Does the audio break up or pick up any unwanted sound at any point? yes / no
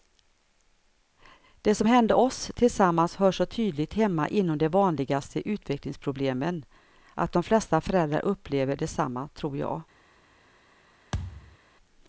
yes